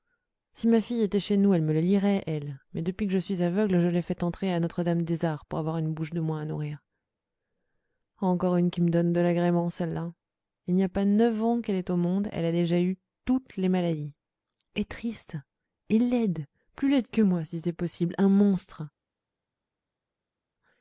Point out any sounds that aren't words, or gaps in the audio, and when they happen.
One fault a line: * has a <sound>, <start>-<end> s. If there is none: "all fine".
all fine